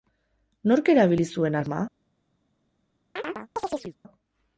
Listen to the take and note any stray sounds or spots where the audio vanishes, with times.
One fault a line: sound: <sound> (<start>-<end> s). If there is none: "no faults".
sound: chirp (3.2-4.0 s)